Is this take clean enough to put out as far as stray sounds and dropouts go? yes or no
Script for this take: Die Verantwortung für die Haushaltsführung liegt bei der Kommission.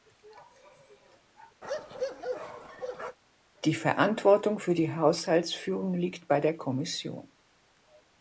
no